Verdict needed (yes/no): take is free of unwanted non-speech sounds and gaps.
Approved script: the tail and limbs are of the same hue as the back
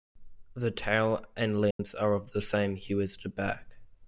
no